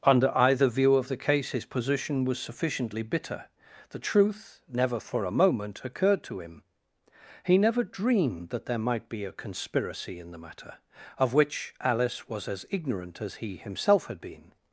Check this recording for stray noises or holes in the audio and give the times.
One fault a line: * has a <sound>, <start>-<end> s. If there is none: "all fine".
all fine